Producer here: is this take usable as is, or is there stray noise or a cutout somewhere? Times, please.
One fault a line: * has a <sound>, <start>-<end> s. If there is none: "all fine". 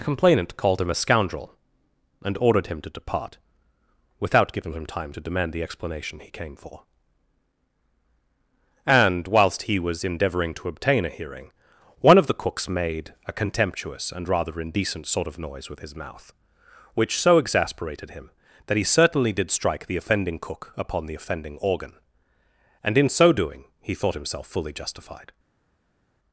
all fine